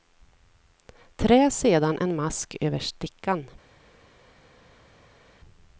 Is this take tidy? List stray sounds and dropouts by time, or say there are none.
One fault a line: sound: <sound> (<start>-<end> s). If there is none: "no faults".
no faults